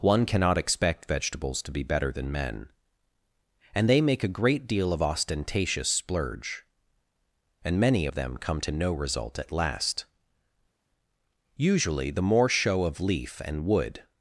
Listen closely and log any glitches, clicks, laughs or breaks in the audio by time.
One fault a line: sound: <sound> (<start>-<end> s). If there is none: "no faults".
no faults